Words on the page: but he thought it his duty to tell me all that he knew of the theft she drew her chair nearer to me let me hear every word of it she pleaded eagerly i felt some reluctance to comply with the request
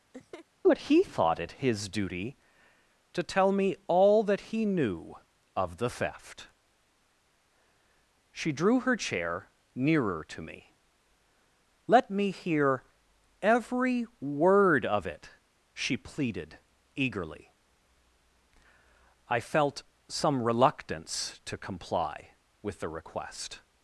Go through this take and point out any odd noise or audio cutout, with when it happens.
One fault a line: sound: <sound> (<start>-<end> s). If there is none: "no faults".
sound: laugh (0.1-0.5 s)